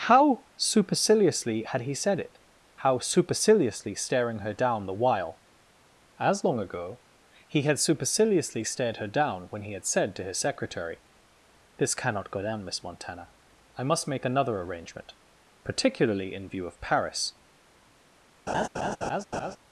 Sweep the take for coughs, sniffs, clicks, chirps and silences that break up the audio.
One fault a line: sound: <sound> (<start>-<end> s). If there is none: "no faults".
sound: laugh (18.5-19.6 s)